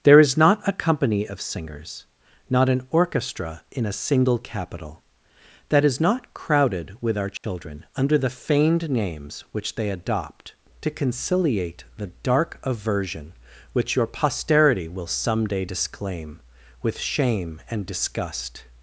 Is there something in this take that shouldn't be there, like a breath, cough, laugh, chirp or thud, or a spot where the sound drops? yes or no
yes